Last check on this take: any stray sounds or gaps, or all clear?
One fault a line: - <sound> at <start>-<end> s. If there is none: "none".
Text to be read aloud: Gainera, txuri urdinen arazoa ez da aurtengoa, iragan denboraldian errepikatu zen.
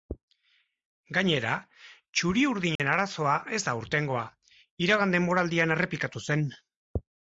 - dropout at 2.8-2.8 s